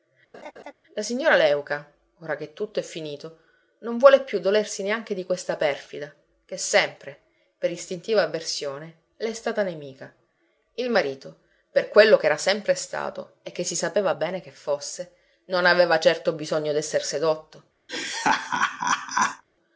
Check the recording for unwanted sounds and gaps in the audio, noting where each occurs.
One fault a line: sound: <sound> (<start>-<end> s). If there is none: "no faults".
sound: laugh (0.3-0.7 s)
sound: laugh (17.9-19.4 s)